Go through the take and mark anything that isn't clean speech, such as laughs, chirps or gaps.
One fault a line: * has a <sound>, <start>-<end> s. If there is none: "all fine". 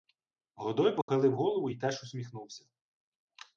* has a dropout, 1.0-1.1 s